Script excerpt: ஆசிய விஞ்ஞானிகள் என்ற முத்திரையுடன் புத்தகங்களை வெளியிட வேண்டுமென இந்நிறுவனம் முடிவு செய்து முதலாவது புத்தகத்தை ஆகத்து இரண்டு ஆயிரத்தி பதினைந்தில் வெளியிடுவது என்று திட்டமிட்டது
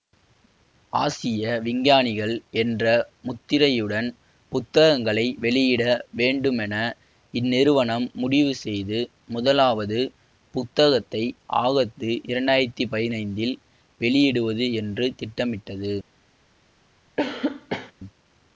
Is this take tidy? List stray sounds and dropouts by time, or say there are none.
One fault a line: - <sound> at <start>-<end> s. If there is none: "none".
- cough at 17.2-17.9 s